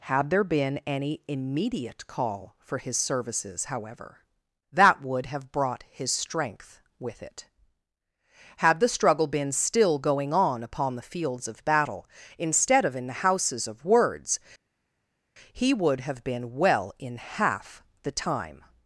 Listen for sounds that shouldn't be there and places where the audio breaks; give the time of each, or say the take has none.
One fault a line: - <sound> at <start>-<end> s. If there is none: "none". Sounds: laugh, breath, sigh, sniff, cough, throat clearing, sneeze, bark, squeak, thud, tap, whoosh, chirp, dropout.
none